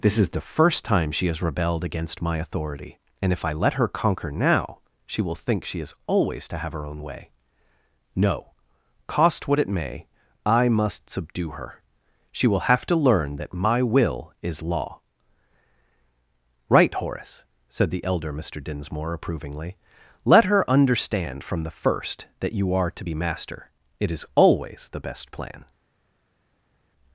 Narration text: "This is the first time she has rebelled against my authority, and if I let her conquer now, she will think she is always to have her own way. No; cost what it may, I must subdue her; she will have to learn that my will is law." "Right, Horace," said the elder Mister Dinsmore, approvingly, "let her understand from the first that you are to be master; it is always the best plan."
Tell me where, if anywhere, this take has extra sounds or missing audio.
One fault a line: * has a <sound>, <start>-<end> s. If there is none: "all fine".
all fine